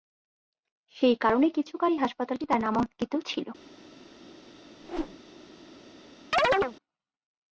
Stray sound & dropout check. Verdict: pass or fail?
fail